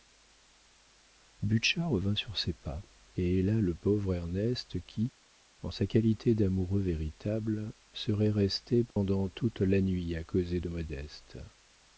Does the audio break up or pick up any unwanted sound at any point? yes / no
yes